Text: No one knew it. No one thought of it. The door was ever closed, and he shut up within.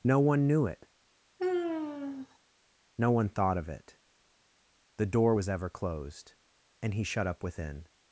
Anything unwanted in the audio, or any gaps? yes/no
yes